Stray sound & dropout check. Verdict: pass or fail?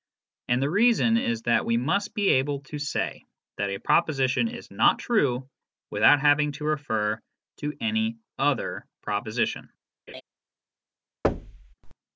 fail